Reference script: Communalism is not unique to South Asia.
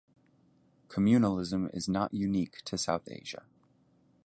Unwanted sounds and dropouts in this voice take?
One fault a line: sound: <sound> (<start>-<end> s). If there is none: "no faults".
no faults